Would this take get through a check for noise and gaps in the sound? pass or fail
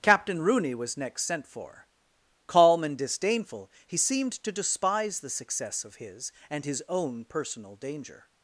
pass